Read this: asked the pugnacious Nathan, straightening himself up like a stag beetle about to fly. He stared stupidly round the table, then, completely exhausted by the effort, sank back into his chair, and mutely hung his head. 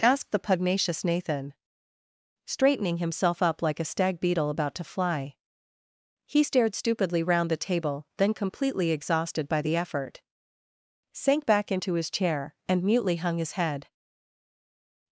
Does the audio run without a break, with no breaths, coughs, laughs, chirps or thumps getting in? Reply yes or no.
yes